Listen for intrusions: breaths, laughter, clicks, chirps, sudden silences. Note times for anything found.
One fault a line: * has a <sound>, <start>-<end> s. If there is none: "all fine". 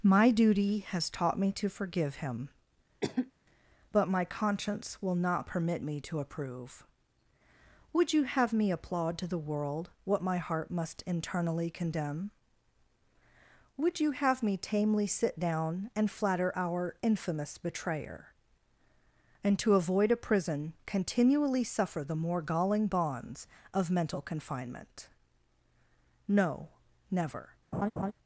* has a cough, 3.0-3.3 s
* has a laugh, 27.7-28.1 s